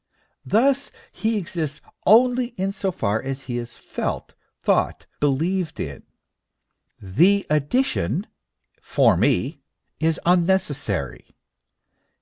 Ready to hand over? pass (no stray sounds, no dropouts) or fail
pass